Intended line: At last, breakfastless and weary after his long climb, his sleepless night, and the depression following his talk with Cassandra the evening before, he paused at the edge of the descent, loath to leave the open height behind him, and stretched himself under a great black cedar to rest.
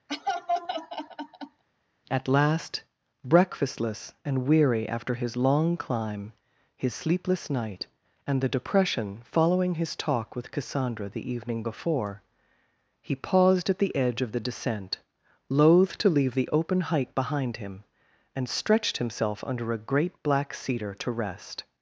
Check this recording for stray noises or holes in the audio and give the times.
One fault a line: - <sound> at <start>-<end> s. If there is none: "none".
- laugh at 0.1-1.6 s